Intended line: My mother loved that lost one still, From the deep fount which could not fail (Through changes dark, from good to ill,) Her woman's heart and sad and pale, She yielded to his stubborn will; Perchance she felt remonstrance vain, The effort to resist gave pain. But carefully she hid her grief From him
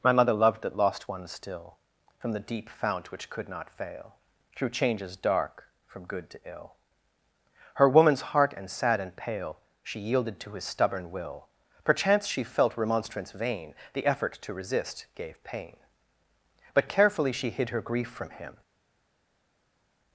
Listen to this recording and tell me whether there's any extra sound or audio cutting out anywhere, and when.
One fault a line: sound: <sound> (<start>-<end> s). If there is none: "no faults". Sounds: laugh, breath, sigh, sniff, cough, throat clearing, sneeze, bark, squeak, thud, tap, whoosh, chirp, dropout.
no faults